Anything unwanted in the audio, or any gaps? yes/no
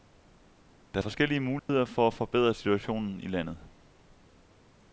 yes